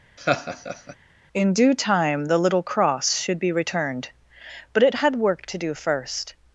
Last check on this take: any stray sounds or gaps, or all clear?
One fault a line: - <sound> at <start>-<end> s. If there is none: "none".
- laugh at 0.2-1.0 s